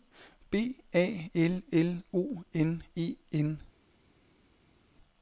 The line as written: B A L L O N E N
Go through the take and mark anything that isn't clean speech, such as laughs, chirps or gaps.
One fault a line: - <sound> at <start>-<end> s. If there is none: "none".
none